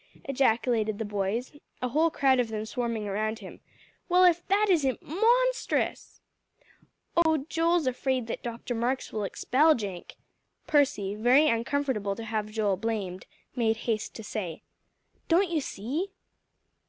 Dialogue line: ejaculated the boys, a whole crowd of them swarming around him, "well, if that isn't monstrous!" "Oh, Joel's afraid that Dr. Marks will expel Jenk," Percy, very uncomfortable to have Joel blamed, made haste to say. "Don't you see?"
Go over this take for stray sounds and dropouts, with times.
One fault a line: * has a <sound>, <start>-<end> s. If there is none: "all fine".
* has a dropout, 7.2-7.3 s